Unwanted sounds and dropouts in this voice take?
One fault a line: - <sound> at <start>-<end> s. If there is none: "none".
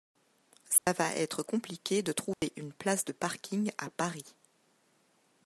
- dropout at 0.8-0.9 s
- dropout at 2.3-2.4 s